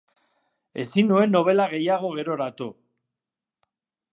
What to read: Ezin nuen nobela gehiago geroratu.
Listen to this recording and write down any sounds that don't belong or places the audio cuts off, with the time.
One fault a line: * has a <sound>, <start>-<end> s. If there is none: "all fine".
all fine